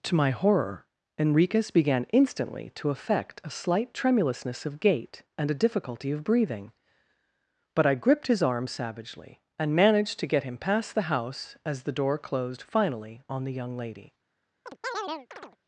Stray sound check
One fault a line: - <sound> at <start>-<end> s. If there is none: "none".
- chirp at 14.7-15.6 s